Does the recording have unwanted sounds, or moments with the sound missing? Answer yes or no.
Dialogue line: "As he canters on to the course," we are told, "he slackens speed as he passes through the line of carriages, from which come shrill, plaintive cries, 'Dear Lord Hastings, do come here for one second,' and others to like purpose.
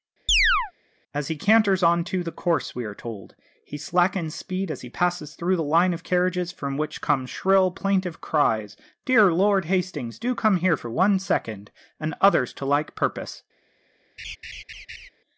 yes